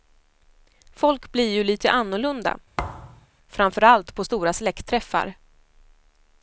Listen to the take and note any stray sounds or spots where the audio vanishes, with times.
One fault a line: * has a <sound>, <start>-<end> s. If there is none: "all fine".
* has a thud, 2.8-3.3 s